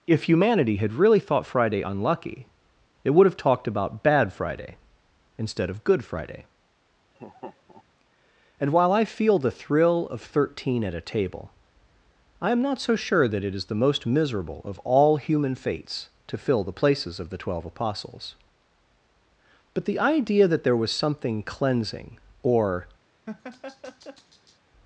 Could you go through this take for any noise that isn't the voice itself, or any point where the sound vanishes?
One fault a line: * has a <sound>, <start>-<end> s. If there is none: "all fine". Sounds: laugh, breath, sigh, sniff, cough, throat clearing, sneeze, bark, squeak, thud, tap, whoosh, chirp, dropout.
* has a laugh, 7.1-7.8 s
* has a laugh, 23.3-24.6 s